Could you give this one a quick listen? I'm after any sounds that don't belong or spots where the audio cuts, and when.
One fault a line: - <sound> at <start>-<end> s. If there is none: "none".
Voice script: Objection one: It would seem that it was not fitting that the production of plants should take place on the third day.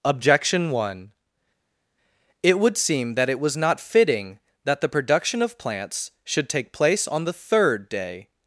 none